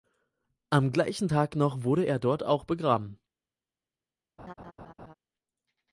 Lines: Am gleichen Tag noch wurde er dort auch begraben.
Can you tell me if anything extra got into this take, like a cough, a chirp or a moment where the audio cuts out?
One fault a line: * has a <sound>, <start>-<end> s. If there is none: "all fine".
* has a laugh, 4.4-5.1 s